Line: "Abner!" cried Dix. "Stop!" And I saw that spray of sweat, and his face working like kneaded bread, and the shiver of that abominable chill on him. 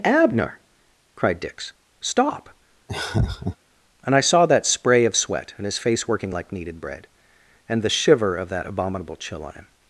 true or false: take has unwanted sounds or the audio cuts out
true